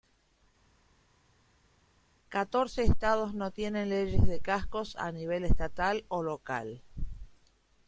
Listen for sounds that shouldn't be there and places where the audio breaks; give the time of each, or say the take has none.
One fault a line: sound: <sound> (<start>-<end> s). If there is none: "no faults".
no faults